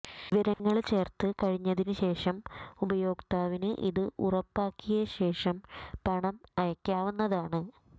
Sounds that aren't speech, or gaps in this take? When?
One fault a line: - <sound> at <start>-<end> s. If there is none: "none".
- dropout at 0.5-0.6 s